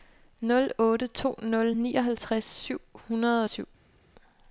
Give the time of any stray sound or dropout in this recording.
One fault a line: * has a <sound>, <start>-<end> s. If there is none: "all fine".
all fine